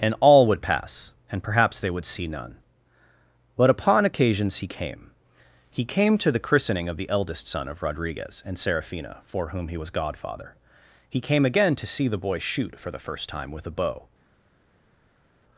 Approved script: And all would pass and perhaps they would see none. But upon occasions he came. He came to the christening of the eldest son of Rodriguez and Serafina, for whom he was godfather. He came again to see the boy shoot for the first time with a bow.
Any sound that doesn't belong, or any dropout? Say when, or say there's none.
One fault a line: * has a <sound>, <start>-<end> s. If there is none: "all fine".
all fine